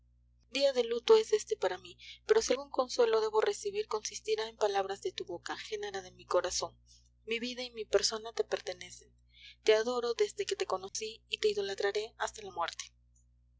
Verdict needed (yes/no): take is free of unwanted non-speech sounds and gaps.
no